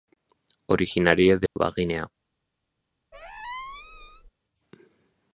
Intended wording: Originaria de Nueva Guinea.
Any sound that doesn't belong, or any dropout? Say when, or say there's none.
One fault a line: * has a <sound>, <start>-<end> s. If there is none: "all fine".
* has a dropout, 1.5-1.6 s
* has a squeak, 3.1-4.3 s